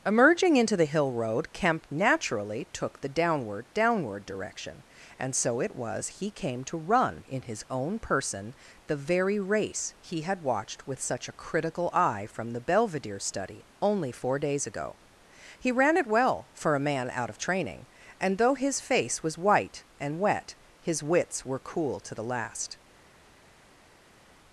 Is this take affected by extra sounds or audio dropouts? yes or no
no